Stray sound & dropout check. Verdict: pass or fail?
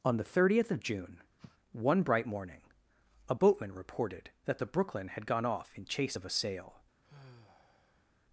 fail